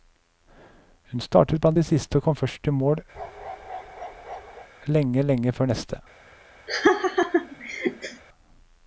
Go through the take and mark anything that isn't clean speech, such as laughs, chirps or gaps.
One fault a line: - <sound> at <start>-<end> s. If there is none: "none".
- bark at 3.1-4.7 s
- laugh at 6.7-8.2 s